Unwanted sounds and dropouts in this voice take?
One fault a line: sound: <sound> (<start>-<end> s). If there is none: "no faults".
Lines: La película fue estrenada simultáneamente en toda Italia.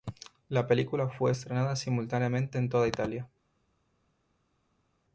no faults